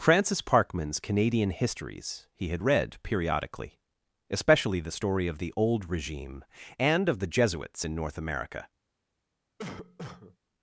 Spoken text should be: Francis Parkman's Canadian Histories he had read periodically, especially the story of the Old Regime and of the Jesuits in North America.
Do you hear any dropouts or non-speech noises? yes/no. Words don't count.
yes